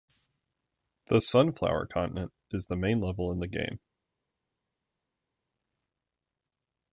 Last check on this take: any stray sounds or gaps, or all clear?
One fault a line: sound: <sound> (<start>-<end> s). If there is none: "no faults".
no faults